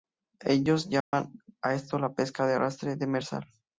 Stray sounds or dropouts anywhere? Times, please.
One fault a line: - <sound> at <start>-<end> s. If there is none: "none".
- dropout at 1.0-1.1 s